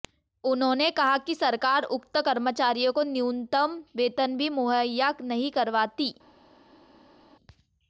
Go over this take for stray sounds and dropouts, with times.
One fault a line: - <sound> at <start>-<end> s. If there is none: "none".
none